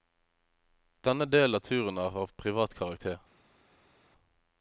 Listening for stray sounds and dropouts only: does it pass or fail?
pass